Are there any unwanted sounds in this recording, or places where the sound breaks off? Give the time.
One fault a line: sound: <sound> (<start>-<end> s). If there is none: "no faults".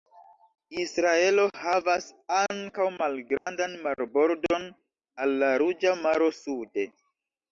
sound: dropout (3.4-3.5 s)